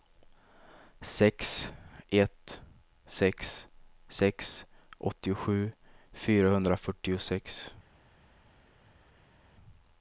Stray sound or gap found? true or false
false